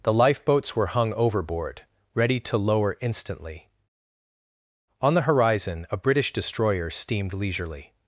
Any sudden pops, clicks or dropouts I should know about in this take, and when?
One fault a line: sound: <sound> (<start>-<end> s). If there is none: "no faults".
no faults